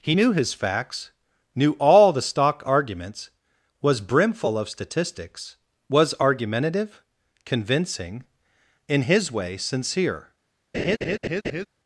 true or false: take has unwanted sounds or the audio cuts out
true